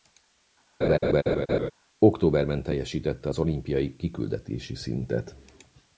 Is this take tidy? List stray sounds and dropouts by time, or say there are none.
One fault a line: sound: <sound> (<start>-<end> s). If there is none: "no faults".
sound: laugh (0.8-1.7 s)